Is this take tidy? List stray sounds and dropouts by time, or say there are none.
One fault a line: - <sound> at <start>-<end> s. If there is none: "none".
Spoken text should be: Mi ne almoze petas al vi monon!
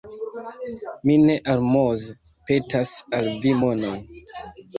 none